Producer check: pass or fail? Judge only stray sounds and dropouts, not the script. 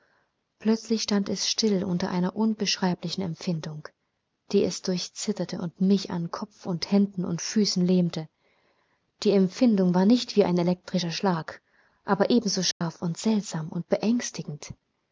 fail